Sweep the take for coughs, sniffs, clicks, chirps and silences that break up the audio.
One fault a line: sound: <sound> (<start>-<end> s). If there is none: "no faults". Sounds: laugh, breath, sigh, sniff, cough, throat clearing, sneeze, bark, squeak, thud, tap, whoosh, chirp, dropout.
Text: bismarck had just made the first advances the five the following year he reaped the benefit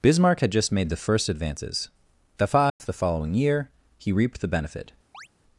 sound: dropout (2.7-2.8 s)
sound: chirp (5.1-5.3 s)